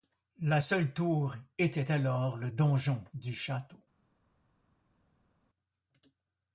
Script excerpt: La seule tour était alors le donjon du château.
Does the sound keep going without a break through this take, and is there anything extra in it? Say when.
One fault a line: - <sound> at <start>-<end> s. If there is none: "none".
none